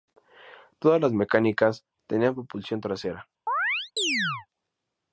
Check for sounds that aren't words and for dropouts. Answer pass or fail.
fail